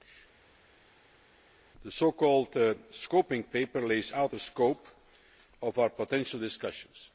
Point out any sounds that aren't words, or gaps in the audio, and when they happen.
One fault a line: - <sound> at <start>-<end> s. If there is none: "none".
none